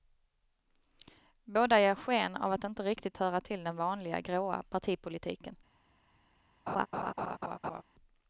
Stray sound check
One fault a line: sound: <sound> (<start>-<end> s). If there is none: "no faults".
sound: laugh (6.7-7.8 s)